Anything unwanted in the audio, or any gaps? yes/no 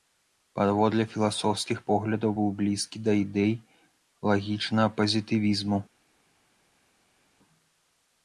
no